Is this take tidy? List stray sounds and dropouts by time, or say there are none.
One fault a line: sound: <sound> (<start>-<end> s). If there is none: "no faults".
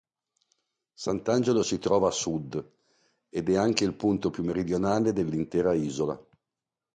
no faults